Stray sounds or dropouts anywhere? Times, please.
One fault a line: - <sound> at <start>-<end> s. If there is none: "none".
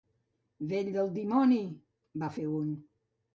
none